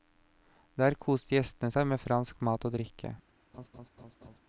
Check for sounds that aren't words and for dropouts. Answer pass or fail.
fail